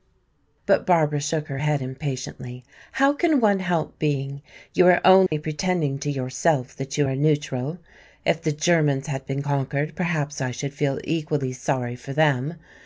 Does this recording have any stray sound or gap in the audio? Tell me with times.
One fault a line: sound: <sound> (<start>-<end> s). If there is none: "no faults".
sound: dropout (5.3-5.3 s)